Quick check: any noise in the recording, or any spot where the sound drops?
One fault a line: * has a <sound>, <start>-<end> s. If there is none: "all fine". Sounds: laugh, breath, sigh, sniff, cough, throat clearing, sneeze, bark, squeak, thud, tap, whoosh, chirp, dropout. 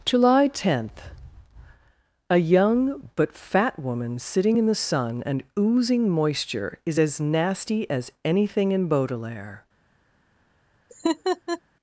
* has a laugh, 10.9-11.6 s